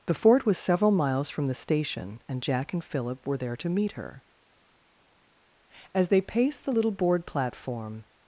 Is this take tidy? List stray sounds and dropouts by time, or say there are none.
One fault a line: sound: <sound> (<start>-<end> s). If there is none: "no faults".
no faults